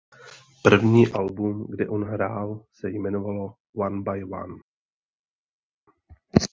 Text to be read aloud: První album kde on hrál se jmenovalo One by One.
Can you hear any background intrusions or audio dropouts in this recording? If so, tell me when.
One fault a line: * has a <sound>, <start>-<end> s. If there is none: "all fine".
all fine